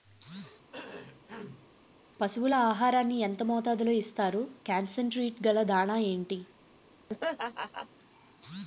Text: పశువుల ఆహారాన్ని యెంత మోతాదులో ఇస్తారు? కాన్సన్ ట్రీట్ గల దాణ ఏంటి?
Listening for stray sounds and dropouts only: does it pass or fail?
fail